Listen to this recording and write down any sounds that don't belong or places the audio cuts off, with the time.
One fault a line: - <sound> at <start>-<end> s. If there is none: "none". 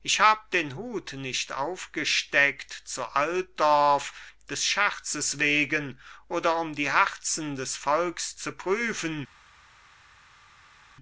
none